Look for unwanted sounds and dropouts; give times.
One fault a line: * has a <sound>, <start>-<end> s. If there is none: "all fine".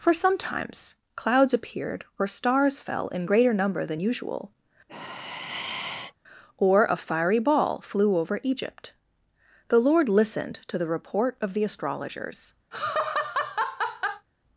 * has a sigh, 4.9-6.2 s
* has a laugh, 12.7-14.3 s